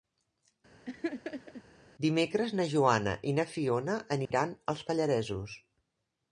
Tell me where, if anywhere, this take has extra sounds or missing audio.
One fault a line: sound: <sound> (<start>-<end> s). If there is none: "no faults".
sound: laugh (0.8-1.6 s)
sound: dropout (4.3-4.3 s)